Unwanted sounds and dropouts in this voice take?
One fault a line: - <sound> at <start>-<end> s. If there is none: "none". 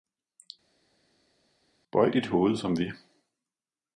none